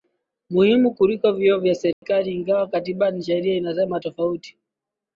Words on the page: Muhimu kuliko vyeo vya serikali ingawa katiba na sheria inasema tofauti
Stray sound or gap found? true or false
true